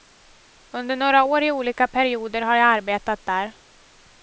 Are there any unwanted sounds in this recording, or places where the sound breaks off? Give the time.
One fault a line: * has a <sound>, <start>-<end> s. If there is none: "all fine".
all fine